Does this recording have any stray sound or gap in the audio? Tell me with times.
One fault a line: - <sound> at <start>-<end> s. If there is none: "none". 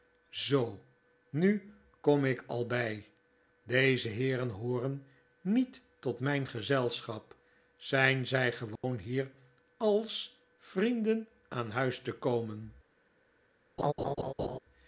- dropout at 8.8-8.8 s
- laugh at 13.8-14.6 s